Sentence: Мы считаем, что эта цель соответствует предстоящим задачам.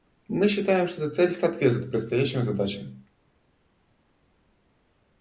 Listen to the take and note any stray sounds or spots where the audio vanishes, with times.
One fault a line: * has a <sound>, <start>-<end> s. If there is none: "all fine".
all fine